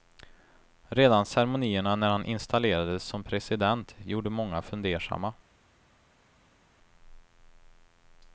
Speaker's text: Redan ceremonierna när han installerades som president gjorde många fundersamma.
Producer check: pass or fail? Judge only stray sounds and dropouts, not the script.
pass